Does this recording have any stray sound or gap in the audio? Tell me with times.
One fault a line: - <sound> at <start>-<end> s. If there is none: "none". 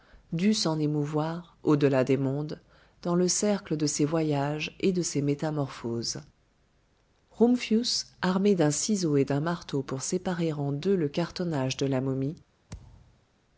- thud at 12.7-13.3 s